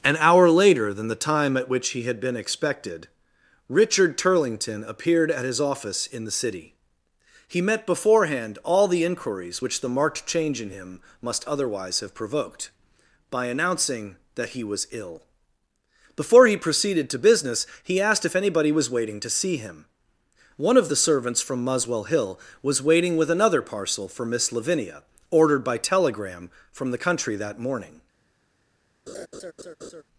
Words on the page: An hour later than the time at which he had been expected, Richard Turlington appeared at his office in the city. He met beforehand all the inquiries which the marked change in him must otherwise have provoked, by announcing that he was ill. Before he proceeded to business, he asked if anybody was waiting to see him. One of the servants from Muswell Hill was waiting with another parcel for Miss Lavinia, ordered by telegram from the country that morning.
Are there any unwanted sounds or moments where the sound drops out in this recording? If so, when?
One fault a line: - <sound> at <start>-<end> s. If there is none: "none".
- laugh at 29.1-30.0 s